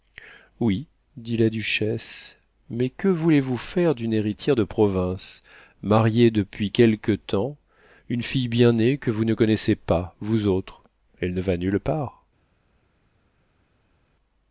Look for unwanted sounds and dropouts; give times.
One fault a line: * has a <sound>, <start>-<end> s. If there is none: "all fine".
all fine